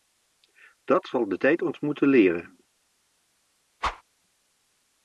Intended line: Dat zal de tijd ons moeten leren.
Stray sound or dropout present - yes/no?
yes